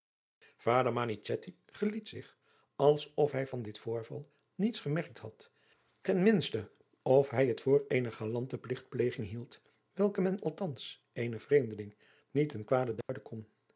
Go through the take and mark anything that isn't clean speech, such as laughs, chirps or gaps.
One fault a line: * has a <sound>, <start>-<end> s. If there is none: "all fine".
* has a dropout, 13.0-13.1 s